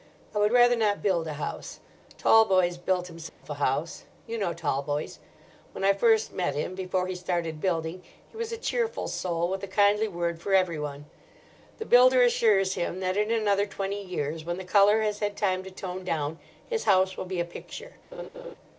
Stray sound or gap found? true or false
true